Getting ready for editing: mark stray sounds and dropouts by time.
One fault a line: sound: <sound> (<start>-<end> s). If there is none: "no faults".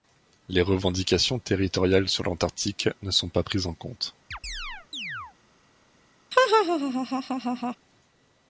sound: chirp (4.3-5.3 s)
sound: laugh (6.3-7.8 s)